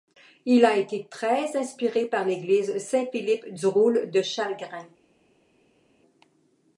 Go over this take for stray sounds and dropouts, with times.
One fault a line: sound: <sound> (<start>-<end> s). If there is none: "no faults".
no faults